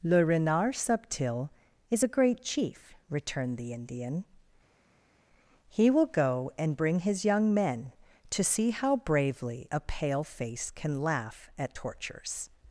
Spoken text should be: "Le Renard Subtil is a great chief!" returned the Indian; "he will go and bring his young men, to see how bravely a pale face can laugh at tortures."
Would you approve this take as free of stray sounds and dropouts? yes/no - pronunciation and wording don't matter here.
yes